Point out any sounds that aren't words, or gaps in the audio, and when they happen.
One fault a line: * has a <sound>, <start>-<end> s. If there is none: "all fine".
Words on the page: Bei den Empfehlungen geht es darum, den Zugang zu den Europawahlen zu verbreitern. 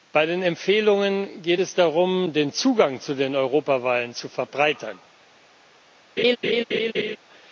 * has a laugh, 6.2-7.2 s